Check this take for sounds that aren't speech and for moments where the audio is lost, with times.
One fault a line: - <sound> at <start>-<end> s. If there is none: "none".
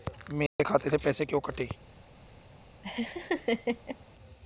- dropout at 0.5-0.6 s
- laugh at 2.8-4.0 s